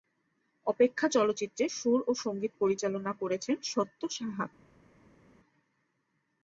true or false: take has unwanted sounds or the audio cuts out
false